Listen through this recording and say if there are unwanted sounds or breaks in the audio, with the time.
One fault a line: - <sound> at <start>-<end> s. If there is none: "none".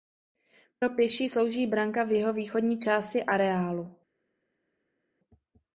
none